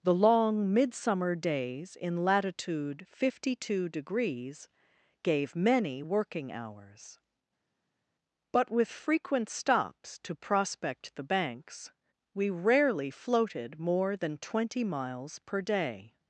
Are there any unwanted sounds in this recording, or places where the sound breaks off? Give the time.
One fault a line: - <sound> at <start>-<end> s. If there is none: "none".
none